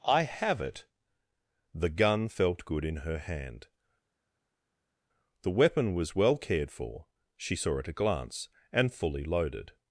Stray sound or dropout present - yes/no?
no